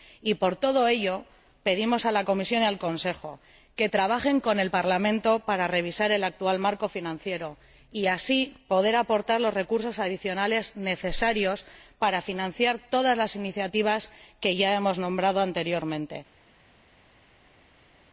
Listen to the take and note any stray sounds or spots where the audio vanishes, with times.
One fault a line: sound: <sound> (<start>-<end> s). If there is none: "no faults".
no faults